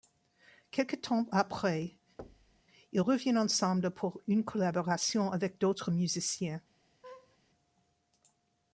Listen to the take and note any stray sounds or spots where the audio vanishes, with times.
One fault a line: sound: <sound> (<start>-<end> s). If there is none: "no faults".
sound: thud (2.2-2.6 s)
sound: laugh (7.0-7.4 s)